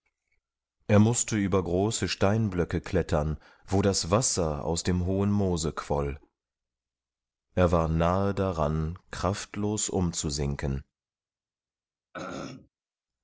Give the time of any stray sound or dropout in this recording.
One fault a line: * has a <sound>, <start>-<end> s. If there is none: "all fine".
* has a throat clearing, 12.1-12.7 s